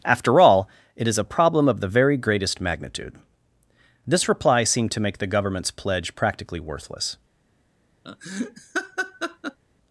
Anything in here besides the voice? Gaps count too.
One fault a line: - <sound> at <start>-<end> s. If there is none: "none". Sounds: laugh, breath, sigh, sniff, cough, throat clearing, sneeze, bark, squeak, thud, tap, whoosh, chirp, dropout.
- laugh at 8.0-9.6 s